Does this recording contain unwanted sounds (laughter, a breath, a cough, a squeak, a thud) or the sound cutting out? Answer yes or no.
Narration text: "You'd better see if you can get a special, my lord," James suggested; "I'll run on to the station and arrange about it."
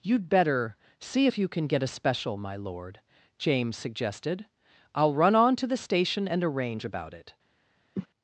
yes